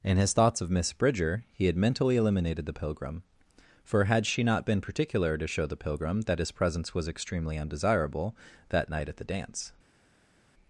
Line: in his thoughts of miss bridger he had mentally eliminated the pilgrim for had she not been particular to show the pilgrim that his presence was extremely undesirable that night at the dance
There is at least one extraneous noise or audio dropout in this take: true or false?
false